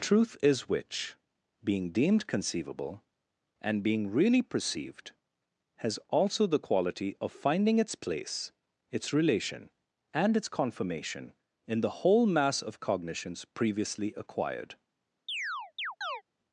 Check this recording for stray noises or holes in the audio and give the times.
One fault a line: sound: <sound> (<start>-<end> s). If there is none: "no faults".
sound: chirp (15.3-16.2 s)